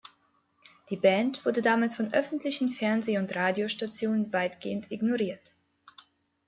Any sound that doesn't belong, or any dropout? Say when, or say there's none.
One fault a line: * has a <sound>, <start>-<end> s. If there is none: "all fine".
all fine